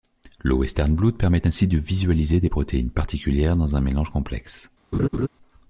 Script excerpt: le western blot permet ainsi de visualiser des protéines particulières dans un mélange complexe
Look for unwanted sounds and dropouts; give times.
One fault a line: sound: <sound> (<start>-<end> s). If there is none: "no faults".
sound: laugh (4.9-5.3 s)